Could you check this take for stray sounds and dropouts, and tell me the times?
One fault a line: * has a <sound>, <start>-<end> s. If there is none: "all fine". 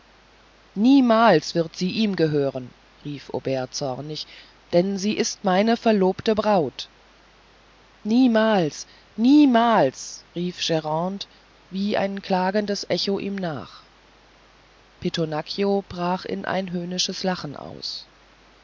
all fine